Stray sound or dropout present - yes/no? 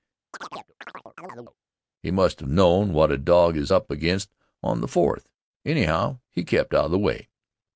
yes